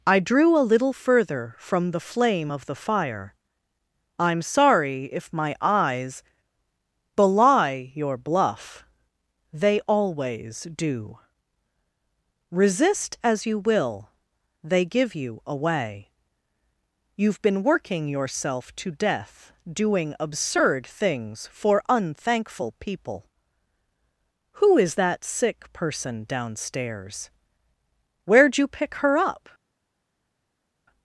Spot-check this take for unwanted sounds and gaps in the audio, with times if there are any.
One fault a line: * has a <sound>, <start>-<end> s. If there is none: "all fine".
all fine